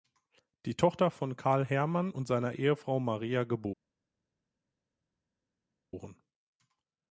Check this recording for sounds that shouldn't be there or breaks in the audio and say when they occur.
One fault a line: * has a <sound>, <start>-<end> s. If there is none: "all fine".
all fine